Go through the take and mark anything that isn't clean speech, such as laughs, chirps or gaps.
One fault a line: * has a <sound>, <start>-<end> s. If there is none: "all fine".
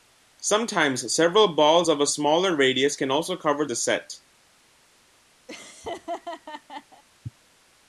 * has a laugh, 5.5-7.0 s